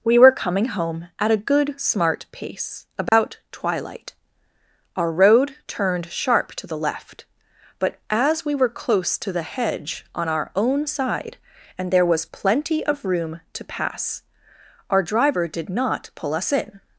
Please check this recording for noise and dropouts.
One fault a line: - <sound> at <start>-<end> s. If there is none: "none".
- dropout at 3.1-3.1 s